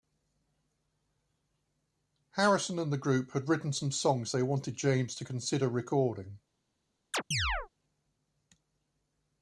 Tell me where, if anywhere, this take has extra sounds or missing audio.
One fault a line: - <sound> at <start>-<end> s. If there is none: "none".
- chirp at 7.1-7.7 s